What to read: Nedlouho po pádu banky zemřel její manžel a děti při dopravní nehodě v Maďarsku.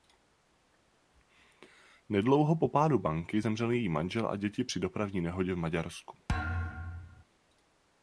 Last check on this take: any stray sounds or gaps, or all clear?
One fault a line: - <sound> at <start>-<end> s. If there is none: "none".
- thud at 6.3-7.2 s